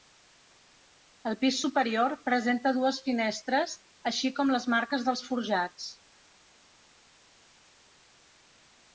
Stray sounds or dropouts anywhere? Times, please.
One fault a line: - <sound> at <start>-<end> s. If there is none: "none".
none